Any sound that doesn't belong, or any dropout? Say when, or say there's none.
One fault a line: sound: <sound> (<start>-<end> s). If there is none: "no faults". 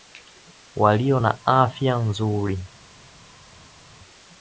no faults